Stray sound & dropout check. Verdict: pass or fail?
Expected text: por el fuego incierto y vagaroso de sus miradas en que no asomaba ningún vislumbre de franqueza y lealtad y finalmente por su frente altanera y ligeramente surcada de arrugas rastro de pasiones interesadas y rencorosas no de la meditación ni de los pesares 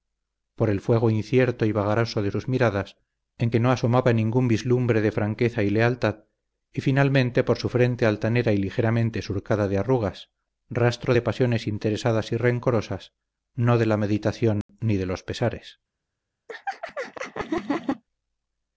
fail